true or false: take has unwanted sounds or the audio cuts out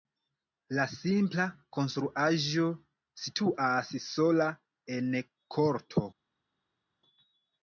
false